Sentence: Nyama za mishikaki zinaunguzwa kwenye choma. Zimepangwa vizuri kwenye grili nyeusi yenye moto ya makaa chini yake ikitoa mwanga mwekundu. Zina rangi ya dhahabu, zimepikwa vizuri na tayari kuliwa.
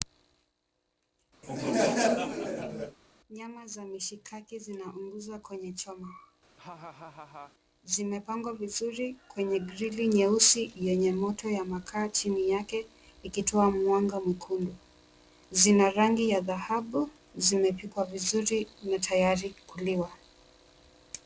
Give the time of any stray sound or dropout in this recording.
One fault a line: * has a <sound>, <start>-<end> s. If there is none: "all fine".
* has a laugh, 1.4-3.0 s
* has a laugh, 6.6-7.5 s